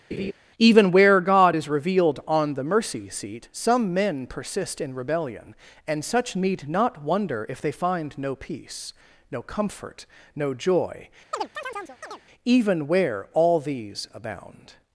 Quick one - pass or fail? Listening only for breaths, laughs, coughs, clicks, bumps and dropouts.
fail